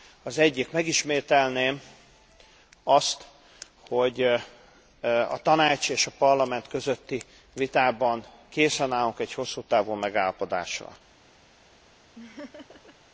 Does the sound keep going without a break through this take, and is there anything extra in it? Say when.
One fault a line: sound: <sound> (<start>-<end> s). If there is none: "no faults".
sound: laugh (12.2-13.0 s)